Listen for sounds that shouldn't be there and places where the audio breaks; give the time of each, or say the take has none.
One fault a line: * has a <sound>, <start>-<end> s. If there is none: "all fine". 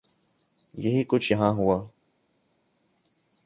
all fine